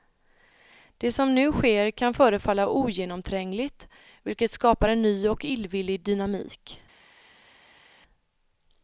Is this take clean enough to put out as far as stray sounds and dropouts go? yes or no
yes